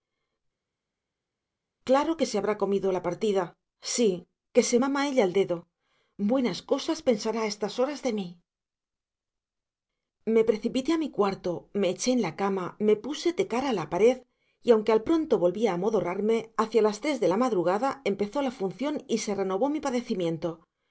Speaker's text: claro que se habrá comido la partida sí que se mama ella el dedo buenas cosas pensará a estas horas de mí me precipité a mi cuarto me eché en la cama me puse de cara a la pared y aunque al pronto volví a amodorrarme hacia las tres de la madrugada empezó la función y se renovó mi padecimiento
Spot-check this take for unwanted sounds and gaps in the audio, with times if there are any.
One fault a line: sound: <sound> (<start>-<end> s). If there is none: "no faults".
no faults